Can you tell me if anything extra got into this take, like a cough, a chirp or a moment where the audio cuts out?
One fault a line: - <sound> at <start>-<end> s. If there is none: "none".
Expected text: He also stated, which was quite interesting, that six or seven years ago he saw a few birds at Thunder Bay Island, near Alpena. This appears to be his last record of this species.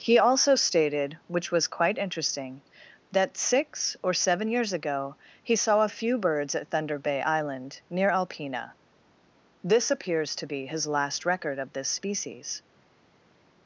none